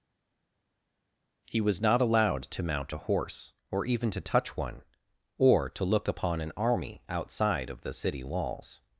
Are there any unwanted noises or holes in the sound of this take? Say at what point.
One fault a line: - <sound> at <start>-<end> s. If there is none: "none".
none